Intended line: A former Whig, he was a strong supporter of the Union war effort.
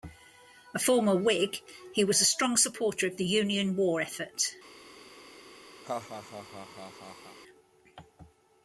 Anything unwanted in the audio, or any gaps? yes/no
yes